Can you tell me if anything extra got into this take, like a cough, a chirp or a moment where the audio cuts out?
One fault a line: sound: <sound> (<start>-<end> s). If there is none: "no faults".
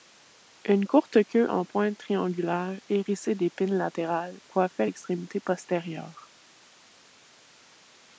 no faults